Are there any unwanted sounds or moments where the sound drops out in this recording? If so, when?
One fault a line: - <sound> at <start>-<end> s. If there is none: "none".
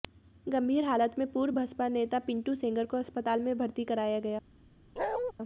- bark at 5.0-5.3 s